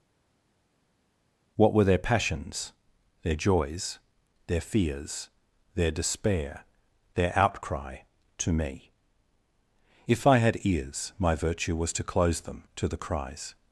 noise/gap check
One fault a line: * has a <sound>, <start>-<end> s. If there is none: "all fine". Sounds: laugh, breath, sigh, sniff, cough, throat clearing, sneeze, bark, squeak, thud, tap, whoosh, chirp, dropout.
all fine